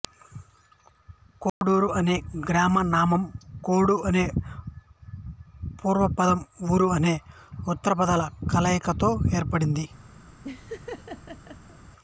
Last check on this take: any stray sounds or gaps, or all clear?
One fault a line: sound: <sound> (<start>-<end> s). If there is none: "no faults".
sound: dropout (1.5-1.6 s)
sound: laugh (10.4-11.8 s)